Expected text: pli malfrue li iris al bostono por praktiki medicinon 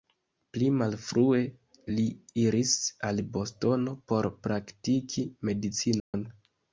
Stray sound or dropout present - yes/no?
yes